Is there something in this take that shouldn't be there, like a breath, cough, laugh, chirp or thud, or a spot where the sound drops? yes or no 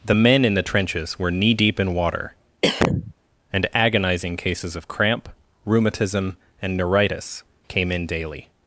yes